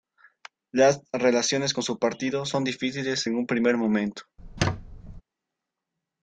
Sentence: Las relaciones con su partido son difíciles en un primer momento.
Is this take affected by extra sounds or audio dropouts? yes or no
yes